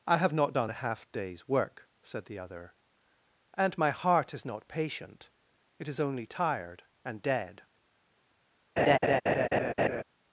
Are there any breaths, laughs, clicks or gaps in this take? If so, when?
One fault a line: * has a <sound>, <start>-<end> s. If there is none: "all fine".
* has a laugh, 8.8-10.0 s